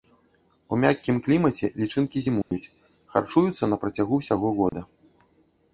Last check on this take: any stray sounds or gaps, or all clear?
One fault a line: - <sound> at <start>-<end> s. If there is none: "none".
- dropout at 2.4-2.5 s
- dropout at 4.7-4.7 s